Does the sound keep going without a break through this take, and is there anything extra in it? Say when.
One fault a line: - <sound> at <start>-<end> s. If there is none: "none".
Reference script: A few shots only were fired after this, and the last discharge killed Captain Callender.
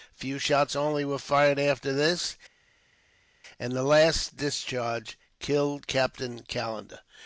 none